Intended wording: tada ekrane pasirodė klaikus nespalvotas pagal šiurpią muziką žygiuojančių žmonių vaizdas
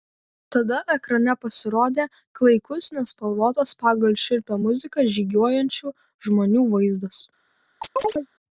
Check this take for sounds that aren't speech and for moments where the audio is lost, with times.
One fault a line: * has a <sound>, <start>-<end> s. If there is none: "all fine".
* has a chirp, 7.8-8.3 s